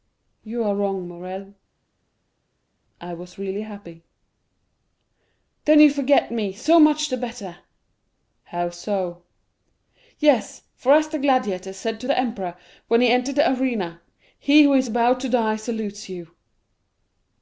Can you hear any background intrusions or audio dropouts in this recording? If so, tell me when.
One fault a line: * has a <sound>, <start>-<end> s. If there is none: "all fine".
all fine